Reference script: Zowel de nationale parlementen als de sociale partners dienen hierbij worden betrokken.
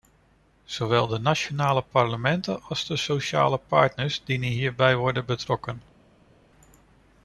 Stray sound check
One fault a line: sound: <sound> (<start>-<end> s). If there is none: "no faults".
no faults